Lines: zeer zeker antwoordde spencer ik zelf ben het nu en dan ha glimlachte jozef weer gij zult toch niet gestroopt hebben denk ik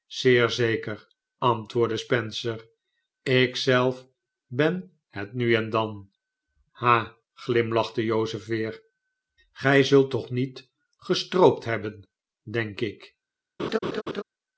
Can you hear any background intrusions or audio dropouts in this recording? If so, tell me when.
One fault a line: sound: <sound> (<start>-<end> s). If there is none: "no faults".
sound: laugh (13.6-14.2 s)